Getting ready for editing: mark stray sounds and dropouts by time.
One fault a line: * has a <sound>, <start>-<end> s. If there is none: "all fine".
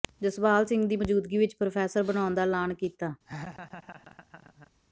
* has a laugh, 3.3-4.7 s